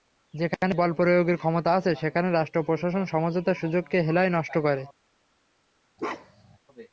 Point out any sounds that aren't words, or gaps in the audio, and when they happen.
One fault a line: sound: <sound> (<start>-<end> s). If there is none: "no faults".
sound: bark (6.0-6.6 s)